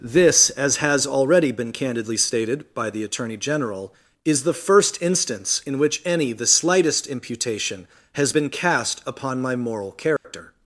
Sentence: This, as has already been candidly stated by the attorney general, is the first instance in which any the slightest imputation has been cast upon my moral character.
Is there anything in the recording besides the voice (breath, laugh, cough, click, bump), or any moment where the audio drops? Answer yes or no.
yes